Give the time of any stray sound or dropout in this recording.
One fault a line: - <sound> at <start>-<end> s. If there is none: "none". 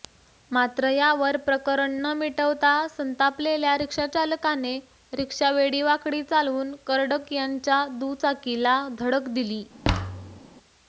- thud at 9.8-10.4 s